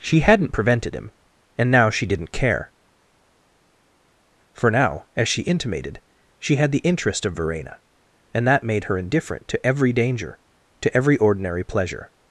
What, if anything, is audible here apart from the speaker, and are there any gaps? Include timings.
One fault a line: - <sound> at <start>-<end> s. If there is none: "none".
none